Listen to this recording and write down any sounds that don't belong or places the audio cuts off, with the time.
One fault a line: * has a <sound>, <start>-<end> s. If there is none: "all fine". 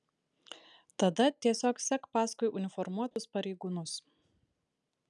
* has a dropout, 3.1-3.2 s